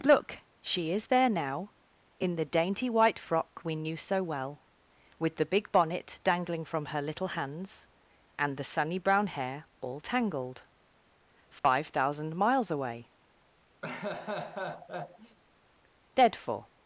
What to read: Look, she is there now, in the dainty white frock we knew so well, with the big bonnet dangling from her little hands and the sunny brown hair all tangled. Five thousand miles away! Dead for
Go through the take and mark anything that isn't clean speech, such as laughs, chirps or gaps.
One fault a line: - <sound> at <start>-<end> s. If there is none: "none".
- dropout at 11.6-11.6 s
- laugh at 13.8-15.4 s